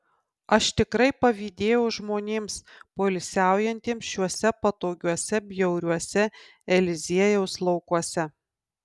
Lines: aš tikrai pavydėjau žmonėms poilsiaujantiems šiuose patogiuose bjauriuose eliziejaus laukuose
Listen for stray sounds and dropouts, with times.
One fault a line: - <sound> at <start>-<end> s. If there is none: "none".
none